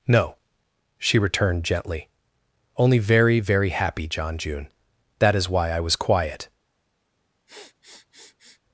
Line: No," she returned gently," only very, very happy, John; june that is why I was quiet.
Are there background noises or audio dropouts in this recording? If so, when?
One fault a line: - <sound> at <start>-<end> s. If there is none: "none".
- sniff at 7.5-8.6 s